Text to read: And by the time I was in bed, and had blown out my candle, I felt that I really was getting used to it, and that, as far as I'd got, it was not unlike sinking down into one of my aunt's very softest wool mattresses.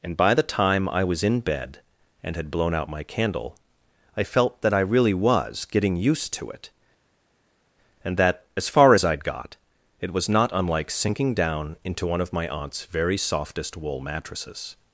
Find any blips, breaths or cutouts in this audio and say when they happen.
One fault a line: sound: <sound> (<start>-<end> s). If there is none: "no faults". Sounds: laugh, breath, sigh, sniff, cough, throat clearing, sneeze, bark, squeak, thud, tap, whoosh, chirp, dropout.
no faults